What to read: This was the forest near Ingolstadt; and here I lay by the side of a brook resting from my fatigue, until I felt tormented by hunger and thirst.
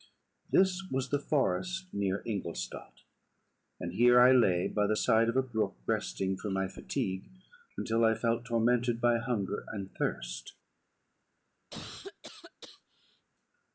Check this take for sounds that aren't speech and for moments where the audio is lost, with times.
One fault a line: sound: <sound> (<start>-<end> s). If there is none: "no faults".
sound: cough (11.7-13.3 s)